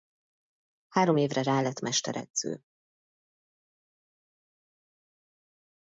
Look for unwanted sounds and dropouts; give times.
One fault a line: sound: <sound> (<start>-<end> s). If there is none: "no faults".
no faults